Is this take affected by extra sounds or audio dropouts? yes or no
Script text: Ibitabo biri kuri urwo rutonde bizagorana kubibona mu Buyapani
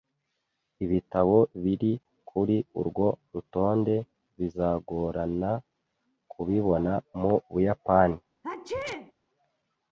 yes